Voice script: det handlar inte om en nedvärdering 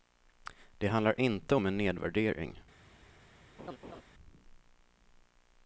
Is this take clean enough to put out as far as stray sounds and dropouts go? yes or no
no